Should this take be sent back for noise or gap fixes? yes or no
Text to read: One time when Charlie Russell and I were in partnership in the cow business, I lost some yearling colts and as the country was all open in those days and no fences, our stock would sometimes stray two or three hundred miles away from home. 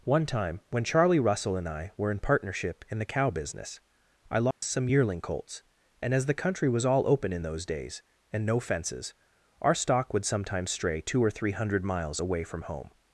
yes